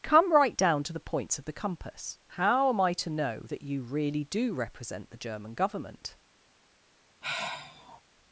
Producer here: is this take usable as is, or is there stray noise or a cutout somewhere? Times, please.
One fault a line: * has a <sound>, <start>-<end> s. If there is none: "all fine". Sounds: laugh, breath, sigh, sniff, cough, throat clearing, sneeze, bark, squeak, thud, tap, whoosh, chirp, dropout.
* has a sigh, 7.2-8.0 s